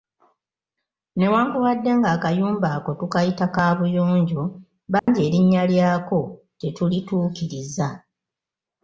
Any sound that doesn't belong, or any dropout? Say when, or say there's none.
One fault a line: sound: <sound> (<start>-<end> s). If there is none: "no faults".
sound: dropout (5.0-5.1 s)